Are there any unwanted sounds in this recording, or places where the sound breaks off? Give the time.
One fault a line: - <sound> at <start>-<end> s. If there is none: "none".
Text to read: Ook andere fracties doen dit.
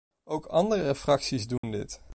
- dropout at 1.6-1.6 s